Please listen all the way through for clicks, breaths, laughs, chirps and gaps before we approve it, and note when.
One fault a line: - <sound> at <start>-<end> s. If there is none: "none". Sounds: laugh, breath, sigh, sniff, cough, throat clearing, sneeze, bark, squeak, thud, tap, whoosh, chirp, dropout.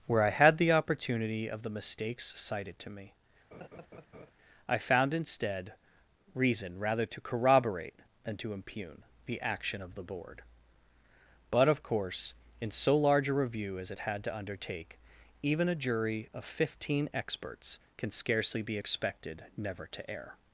- laugh at 3.5-4.3 s